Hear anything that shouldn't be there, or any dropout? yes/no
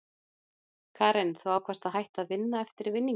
no